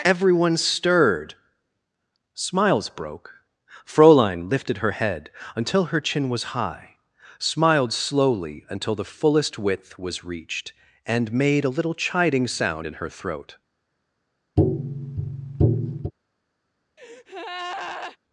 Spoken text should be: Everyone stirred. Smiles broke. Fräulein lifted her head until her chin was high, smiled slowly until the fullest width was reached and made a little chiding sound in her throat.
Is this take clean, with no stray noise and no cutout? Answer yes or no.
no